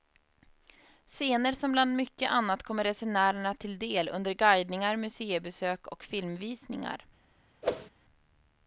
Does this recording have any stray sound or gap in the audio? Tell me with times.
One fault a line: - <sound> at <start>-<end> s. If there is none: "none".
- whoosh at 7.6-7.9 s